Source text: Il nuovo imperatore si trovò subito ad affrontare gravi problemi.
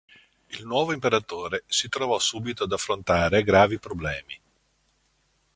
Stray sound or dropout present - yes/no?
no